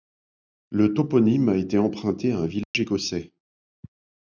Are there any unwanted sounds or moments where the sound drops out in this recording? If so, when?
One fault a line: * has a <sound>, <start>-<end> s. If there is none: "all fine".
* has a dropout, 2.6-2.7 s